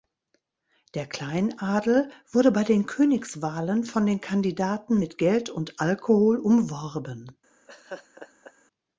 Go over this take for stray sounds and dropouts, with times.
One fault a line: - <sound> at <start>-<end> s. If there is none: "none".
- laugh at 7.7-8.5 s